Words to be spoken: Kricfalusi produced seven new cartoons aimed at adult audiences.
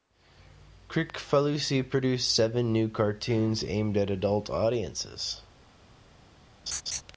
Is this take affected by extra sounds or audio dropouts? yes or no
yes